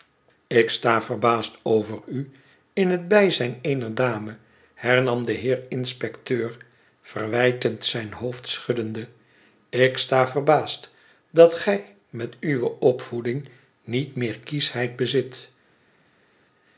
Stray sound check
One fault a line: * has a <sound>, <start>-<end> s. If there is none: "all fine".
all fine